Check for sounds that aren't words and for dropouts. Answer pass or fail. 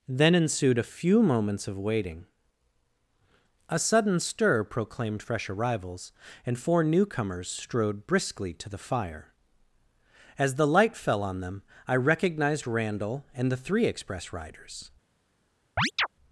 fail